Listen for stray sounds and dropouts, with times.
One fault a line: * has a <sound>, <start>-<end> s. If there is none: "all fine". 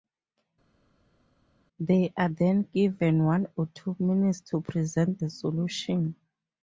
all fine